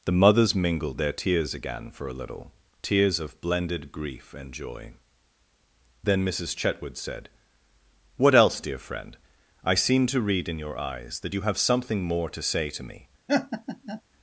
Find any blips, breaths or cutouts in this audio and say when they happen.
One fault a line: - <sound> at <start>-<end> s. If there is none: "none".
- laugh at 13.3-14.0 s